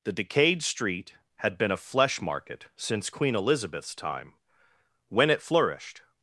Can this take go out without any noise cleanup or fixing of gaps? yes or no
yes